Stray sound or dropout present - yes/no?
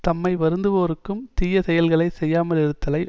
no